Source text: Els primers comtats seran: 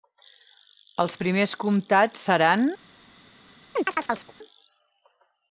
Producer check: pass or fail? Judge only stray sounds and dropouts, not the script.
fail